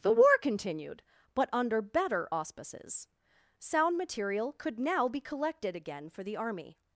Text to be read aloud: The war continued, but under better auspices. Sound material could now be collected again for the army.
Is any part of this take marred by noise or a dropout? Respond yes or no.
no